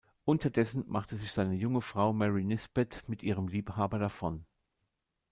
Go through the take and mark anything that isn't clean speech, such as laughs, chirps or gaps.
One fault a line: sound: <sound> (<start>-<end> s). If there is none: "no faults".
no faults